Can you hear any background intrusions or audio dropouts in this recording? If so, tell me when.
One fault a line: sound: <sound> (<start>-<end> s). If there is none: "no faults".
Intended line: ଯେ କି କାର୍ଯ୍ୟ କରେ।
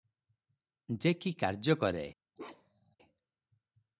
sound: bark (2.4-3.0 s)